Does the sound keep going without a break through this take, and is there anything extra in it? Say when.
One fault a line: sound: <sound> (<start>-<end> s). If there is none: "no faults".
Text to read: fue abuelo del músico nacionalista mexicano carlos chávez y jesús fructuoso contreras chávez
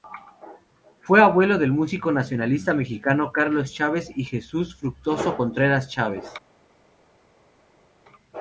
no faults